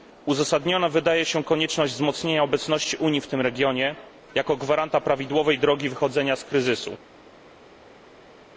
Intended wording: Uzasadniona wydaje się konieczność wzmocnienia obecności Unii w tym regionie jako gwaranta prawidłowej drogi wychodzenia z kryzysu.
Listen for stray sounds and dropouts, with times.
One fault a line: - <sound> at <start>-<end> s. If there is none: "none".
none